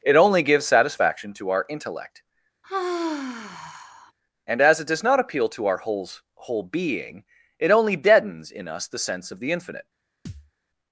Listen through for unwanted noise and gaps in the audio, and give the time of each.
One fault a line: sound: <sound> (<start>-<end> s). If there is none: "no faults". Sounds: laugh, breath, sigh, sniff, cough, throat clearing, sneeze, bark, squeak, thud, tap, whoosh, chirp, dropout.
sound: sigh (2.6-4.1 s)
sound: thud (10.3-10.5 s)